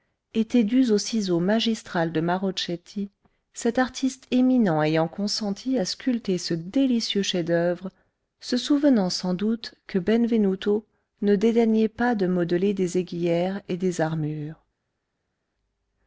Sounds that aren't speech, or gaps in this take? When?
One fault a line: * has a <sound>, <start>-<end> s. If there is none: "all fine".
all fine